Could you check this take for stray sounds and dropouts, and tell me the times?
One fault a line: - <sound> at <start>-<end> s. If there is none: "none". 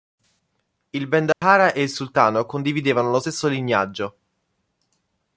- dropout at 1.3-1.4 s